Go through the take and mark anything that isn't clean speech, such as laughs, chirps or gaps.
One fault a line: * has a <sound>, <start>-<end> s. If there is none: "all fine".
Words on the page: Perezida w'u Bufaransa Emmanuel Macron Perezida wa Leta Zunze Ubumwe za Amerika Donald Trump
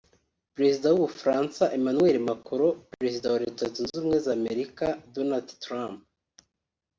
all fine